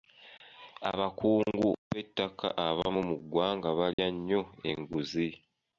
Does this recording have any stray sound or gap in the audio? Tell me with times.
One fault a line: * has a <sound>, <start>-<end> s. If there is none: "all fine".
* has a dropout, 3.9-4.0 s